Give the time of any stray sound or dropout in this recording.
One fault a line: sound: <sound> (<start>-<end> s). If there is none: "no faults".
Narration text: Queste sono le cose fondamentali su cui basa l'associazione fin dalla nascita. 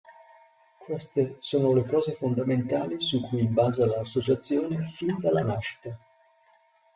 no faults